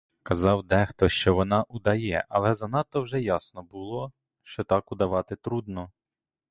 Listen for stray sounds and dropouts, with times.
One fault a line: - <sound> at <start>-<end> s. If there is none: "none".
none